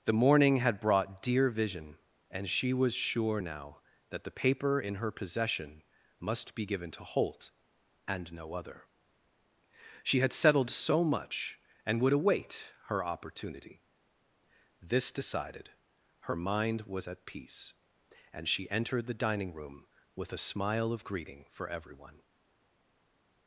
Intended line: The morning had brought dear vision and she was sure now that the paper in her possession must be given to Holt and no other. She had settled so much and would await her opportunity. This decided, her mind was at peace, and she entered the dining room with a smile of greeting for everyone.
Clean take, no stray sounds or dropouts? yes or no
yes